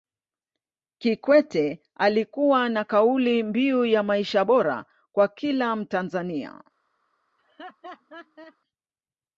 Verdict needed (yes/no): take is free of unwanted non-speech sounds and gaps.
no